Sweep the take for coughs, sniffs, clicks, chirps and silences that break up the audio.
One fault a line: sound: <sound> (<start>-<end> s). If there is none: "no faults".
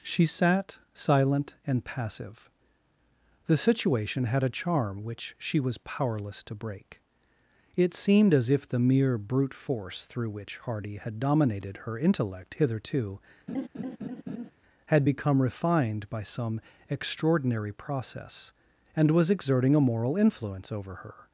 sound: laugh (13.5-14.5 s)